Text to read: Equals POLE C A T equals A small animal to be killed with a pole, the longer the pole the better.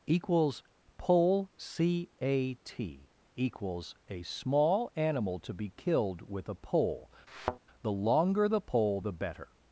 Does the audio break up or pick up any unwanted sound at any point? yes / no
yes